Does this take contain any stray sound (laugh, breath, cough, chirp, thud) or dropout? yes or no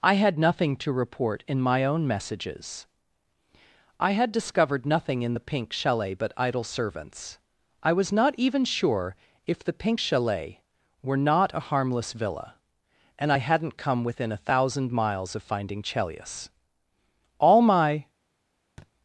yes